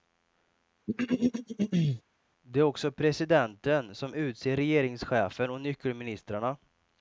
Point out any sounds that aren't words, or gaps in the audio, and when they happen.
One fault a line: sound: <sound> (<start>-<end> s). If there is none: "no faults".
sound: throat clearing (0.9-2.0 s)